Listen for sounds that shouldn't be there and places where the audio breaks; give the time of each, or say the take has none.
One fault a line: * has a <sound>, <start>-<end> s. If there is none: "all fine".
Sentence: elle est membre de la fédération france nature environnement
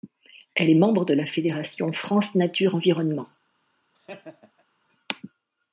* has a laugh, 3.9-4.6 s